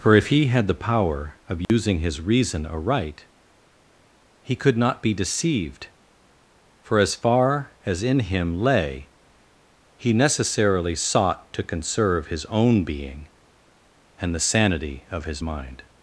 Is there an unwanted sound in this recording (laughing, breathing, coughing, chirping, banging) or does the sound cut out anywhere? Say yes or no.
yes